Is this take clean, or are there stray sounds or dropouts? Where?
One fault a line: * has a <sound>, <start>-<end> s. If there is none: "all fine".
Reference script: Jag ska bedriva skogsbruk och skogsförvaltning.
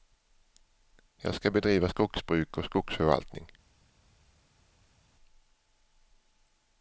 all fine